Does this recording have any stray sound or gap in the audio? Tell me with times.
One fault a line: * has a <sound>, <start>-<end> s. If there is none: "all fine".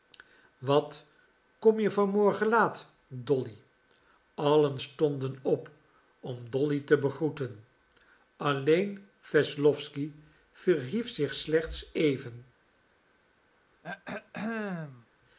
* has a throat clearing, 13.8-15.1 s